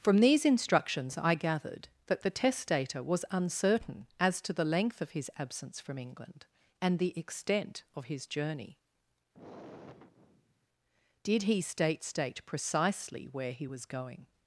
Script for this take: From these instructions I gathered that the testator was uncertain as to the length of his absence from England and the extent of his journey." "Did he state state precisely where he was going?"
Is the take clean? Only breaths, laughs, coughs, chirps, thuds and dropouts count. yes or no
no